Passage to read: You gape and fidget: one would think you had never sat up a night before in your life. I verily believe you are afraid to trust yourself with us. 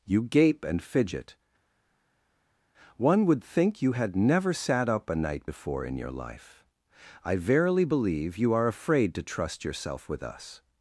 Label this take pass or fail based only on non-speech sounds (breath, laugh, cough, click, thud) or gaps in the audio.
pass